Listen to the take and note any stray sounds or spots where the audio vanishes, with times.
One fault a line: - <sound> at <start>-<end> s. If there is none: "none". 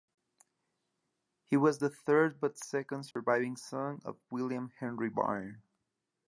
- dropout at 3.1-3.2 s